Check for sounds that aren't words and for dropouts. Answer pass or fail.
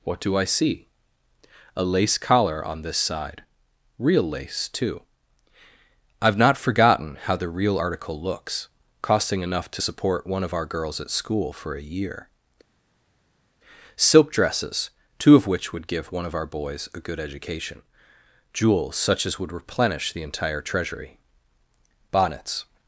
pass